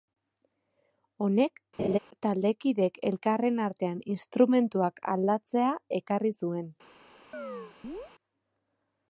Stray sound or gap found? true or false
true